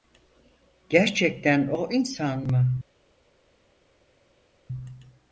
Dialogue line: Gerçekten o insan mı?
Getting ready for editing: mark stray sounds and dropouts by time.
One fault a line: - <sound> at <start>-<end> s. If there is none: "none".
none